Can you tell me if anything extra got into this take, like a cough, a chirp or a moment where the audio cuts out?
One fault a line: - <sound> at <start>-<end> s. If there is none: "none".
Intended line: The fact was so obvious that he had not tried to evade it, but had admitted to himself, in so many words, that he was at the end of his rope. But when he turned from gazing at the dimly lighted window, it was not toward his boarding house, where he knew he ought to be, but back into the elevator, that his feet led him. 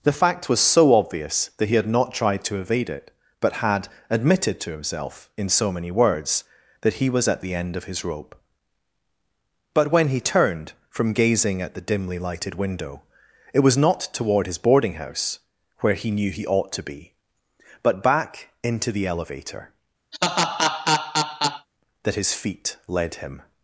- laugh at 20.1-21.7 s